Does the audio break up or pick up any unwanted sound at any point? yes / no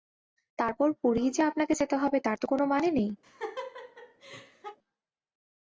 yes